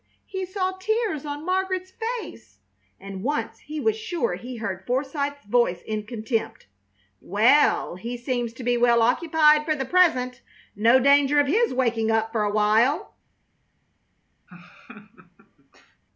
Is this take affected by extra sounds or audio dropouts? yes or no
yes